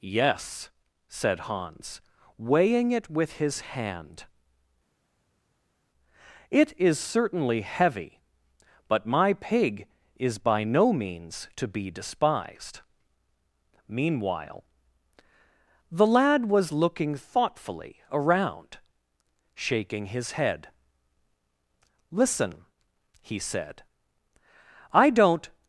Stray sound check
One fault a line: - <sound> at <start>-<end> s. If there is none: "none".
none